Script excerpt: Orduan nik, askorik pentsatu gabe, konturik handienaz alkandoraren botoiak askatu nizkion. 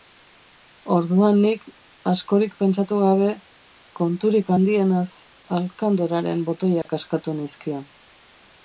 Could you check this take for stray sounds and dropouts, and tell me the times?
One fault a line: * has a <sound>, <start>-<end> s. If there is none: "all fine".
* has a dropout, 6.8-6.9 s